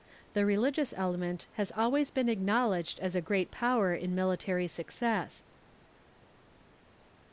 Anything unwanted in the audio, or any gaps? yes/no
no